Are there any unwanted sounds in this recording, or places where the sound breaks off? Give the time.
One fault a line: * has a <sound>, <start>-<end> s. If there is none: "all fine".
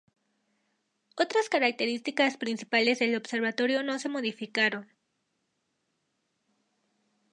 all fine